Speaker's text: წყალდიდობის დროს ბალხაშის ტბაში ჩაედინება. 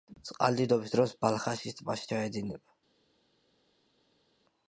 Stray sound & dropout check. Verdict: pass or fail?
pass